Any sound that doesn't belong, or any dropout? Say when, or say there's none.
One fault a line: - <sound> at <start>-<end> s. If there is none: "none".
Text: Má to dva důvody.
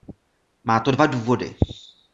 none